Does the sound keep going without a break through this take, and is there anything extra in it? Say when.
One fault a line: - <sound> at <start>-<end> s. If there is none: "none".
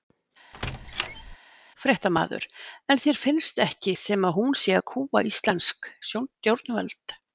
- squeak at 0.5-1.4 s